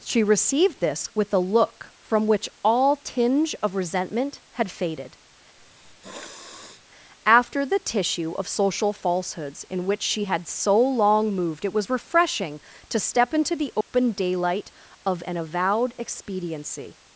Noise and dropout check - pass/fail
fail